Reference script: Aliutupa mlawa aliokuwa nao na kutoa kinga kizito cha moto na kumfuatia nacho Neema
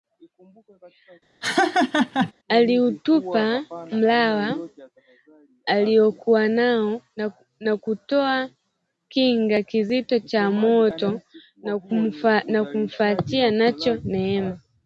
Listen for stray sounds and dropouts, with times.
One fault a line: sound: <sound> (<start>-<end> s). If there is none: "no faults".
sound: laugh (1.4-2.3 s)